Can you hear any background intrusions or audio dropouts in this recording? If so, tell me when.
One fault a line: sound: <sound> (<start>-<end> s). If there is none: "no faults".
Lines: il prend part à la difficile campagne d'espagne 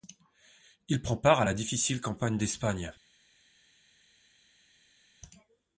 no faults